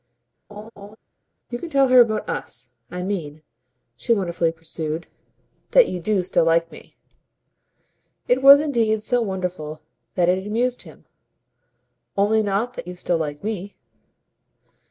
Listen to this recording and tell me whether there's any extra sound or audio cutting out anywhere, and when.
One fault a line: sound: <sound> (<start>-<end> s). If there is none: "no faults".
sound: laugh (0.5-1.0 s)